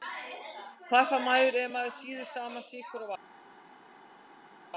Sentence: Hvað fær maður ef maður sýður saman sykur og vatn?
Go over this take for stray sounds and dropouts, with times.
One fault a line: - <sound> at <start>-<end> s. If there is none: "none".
none